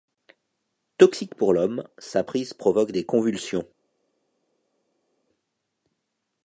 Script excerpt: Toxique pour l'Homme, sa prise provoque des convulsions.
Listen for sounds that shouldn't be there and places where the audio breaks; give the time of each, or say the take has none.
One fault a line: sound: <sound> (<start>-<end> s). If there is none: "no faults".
no faults